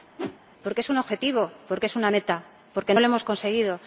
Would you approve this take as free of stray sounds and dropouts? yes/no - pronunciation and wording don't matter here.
no